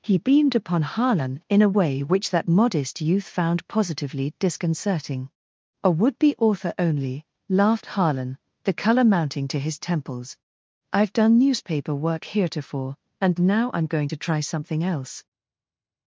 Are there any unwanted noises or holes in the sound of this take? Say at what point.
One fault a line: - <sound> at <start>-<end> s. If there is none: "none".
none